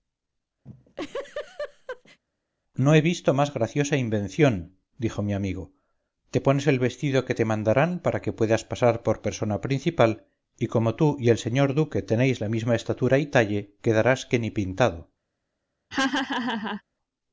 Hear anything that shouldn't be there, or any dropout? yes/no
yes